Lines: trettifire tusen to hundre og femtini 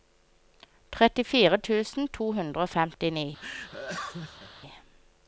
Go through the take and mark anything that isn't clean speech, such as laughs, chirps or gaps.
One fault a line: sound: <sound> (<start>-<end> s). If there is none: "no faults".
sound: laugh (3.4-4.5 s)